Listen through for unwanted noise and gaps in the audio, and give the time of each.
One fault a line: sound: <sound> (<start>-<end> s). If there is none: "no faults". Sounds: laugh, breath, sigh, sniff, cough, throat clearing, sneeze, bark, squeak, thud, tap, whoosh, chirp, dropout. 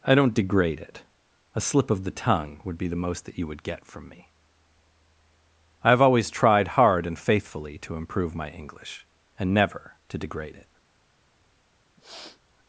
sound: sniff (12.0-12.4 s)